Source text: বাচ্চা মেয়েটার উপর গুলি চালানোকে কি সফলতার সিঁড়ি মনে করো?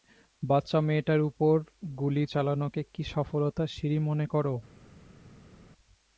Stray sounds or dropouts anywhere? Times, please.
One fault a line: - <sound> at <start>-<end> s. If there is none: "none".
none